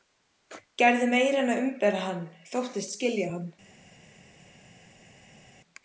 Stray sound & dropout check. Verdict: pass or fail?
pass